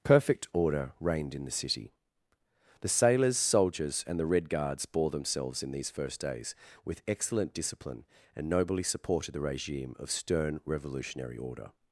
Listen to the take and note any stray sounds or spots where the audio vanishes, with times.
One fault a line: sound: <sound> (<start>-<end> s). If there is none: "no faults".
no faults